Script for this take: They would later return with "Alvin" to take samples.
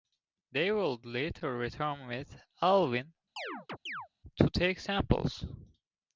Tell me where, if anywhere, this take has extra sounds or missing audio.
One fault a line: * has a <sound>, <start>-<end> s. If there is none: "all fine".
* has a chirp, 3.4-4.1 s